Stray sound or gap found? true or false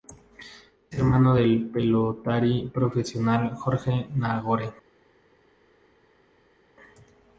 false